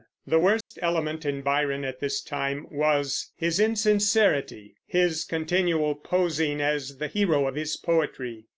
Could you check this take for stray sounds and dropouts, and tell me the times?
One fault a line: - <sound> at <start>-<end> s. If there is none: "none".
- dropout at 0.6-0.7 s